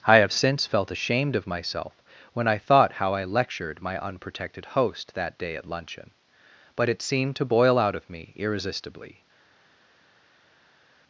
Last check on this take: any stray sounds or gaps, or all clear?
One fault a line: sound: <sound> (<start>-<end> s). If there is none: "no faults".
no faults